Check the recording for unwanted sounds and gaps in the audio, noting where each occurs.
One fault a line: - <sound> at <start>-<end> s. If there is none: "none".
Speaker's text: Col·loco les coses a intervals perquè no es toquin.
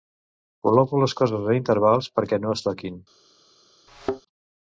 - thud at 3.9-4.2 s